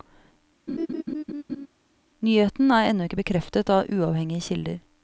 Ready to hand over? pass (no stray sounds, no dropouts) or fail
fail